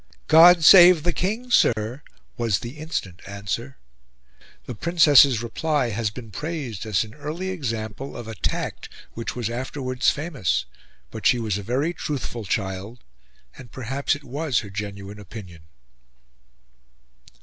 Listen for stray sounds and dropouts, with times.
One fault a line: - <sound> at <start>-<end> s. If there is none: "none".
- dropout at 1.7-1.8 s